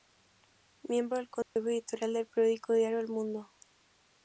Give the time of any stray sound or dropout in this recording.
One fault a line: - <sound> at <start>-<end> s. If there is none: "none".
- dropout at 1.4-1.6 s